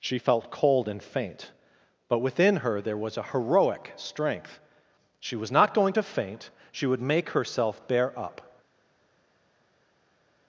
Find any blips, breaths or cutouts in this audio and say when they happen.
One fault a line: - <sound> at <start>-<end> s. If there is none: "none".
none